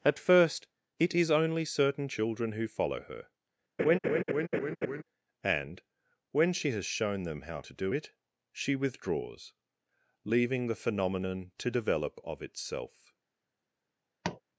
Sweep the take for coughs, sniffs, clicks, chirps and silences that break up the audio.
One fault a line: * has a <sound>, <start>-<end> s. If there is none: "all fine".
* has a laugh, 3.8-5.0 s
* has a tap, 14.2-14.4 s